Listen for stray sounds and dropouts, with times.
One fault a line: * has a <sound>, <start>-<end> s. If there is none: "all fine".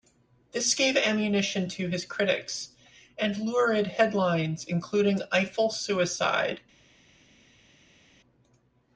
all fine